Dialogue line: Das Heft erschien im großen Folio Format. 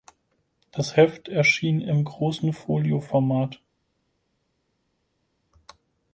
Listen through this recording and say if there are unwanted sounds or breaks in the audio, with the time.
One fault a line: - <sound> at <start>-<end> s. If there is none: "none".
none